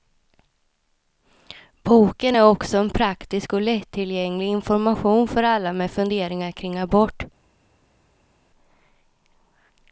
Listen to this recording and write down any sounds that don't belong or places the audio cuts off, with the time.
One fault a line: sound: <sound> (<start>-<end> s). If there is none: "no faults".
no faults